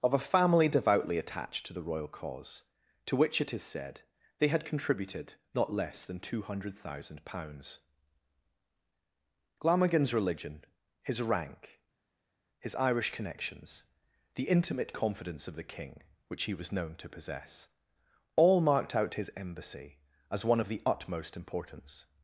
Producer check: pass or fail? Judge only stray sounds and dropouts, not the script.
pass